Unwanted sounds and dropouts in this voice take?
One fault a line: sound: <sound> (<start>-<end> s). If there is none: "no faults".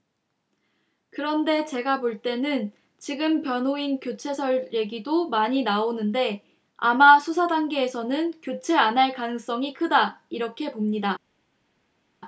no faults